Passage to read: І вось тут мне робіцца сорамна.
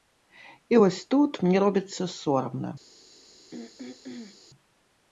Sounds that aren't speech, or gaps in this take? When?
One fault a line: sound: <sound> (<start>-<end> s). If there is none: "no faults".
sound: throat clearing (3.5-4.4 s)